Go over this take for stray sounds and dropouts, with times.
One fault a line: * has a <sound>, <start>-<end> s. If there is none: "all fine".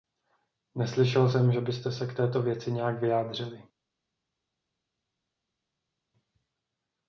all fine